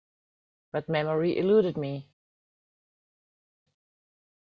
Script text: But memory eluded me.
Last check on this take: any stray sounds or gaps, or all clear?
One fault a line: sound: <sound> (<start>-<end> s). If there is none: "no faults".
no faults